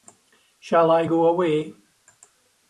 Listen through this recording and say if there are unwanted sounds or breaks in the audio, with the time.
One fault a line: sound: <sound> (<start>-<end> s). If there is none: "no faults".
no faults